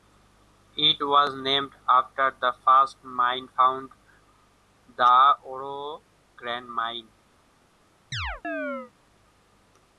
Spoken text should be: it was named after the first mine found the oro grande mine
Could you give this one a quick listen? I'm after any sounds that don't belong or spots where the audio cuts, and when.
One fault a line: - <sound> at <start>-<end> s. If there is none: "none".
- chirp at 8.1-8.9 s